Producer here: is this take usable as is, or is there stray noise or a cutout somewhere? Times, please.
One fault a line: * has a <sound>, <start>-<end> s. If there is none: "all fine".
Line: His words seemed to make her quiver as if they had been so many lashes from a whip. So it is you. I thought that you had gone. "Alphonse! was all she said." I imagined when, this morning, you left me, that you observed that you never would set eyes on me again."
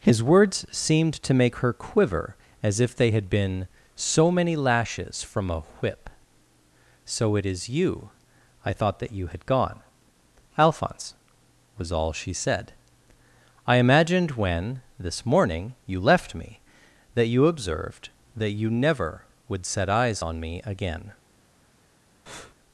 * has a breath, 22.3-22.5 s